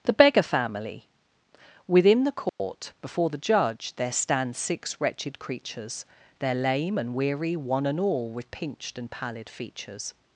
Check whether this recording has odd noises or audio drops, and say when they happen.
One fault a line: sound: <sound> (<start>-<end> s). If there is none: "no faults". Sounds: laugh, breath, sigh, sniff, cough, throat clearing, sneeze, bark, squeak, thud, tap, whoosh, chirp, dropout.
sound: dropout (2.5-2.6 s)